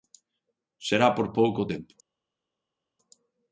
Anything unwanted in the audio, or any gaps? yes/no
no